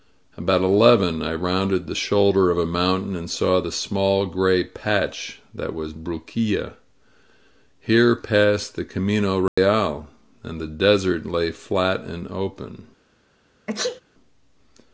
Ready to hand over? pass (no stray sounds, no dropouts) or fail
fail